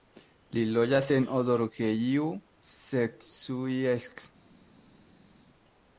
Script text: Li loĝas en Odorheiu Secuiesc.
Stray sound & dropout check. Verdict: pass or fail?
pass